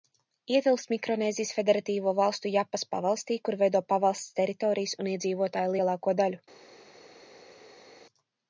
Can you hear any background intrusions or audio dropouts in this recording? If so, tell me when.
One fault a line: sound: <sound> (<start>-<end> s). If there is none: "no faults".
no faults